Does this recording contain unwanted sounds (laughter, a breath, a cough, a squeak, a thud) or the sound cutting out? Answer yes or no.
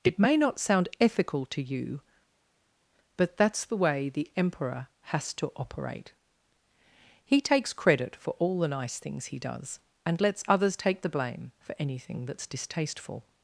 no